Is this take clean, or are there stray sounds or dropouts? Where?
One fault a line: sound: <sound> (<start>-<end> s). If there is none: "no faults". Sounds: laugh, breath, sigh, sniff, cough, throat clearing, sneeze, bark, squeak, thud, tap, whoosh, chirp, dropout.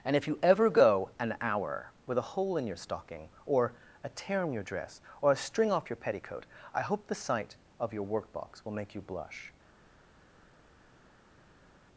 no faults